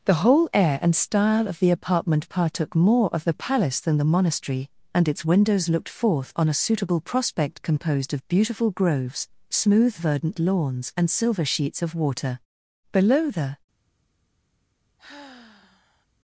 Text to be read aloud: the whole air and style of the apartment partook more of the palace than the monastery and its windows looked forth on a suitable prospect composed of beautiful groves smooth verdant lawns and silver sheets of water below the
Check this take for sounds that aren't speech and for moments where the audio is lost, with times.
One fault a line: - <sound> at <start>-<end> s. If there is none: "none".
- sigh at 15.0-16.1 s